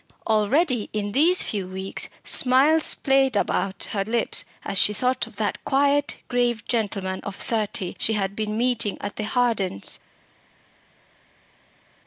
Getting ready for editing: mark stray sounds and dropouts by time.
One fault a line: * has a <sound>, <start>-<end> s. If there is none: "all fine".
all fine